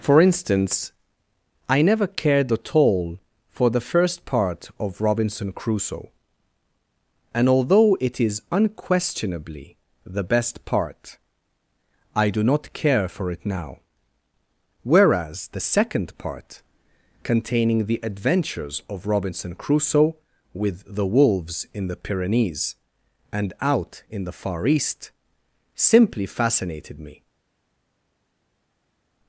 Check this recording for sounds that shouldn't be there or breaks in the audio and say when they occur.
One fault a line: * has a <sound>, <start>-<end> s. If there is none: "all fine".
all fine